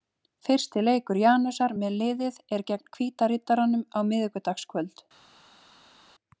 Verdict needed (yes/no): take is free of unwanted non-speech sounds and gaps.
yes